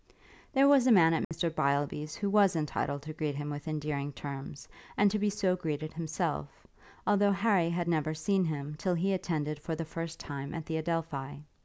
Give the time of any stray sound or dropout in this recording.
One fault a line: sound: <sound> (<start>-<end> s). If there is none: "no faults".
sound: dropout (1.2-1.3 s)